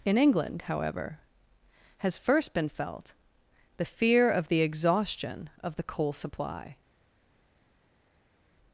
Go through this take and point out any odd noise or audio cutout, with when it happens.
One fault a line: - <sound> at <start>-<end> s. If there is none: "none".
none